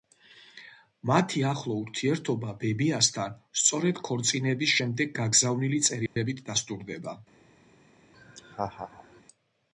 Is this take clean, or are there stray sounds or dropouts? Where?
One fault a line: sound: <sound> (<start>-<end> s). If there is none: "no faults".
sound: dropout (6.1-6.2 s)
sound: laugh (8.1-9.2 s)